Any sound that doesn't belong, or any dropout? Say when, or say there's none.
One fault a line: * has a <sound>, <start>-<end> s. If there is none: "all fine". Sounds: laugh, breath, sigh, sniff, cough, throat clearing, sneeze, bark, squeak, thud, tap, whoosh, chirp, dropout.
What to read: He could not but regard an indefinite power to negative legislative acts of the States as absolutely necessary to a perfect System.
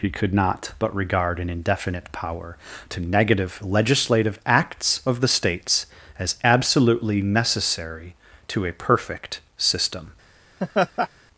* has a laugh, 10.6-11.1 s